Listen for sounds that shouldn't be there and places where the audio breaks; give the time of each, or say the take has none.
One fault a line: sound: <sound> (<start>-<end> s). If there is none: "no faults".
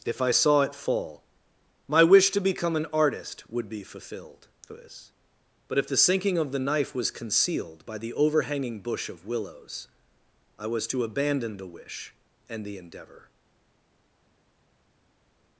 no faults